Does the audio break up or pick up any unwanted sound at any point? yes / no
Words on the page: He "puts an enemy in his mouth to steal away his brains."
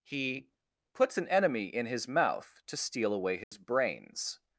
yes